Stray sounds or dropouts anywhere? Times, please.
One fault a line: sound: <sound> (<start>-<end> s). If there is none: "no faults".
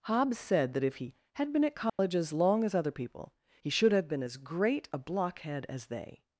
sound: dropout (1.9-2.0 s)